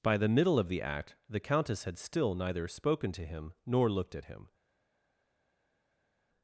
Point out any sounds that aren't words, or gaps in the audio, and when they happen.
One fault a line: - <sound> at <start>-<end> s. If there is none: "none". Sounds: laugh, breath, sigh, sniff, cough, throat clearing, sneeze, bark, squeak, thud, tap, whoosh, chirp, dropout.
none